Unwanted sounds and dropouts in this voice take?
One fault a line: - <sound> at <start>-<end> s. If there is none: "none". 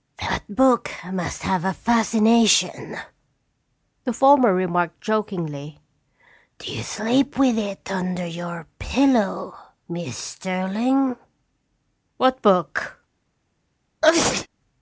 - sneeze at 14.0-14.5 s